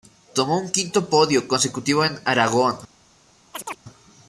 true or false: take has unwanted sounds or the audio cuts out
true